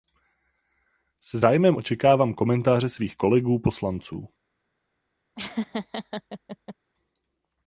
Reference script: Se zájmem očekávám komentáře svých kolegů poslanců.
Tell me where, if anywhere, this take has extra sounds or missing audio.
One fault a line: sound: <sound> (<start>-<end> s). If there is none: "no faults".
sound: laugh (5.4-6.8 s)